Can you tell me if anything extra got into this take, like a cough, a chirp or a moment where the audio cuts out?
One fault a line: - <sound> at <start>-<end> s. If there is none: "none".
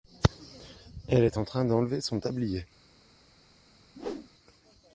- whoosh at 3.9-4.3 s